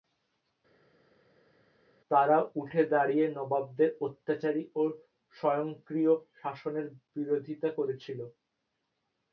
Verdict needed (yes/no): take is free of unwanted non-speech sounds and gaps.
yes